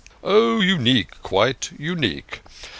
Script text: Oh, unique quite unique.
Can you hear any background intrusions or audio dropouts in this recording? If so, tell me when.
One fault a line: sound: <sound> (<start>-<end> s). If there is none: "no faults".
no faults